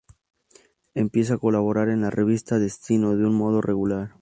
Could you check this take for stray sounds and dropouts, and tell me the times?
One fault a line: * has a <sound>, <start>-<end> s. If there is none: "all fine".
all fine